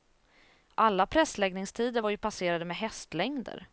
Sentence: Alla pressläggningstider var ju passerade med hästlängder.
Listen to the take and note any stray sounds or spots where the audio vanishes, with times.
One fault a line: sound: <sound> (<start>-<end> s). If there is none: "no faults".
no faults